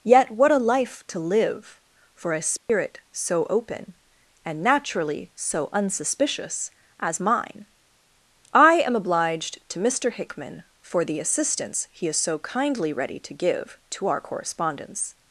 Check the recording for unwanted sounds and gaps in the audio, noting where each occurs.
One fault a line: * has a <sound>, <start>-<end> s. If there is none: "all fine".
* has a dropout, 2.6-2.7 s